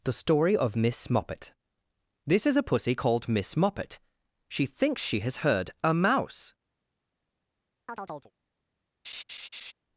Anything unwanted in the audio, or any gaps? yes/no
yes